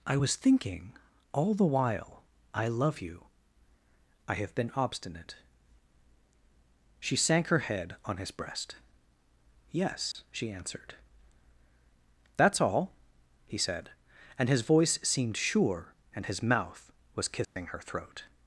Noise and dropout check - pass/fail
fail